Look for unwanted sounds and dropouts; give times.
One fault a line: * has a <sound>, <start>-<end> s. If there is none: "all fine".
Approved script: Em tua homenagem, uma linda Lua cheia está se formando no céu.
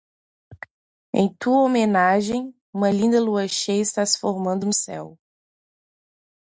all fine